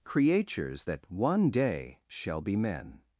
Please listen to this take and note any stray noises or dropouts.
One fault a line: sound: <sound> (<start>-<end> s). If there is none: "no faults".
no faults